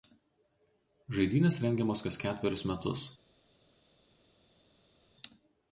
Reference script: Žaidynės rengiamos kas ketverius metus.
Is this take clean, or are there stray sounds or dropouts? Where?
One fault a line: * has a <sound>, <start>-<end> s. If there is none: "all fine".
all fine